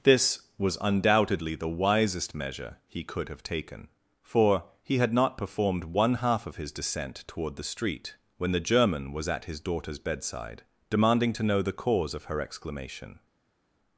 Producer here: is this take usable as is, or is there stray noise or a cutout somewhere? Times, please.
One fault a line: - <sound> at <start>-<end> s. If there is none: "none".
none